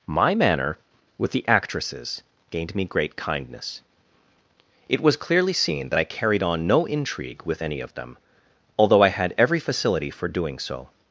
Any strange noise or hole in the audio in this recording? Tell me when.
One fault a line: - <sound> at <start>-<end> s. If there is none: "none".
none